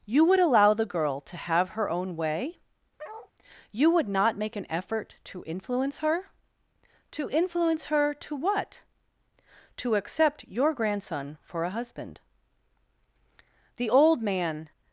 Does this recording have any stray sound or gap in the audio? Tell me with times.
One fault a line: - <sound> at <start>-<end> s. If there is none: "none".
- bark at 3.0-3.3 s